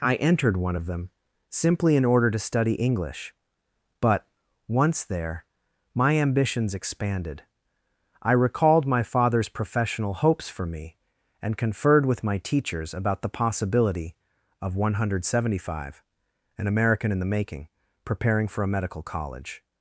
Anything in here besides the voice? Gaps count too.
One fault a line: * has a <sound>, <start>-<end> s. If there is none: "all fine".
all fine